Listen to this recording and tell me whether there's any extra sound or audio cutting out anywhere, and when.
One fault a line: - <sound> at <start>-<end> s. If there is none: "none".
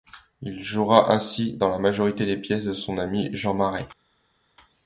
none